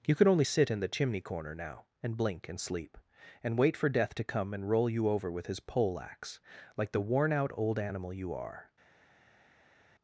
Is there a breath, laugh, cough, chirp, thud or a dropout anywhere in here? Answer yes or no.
no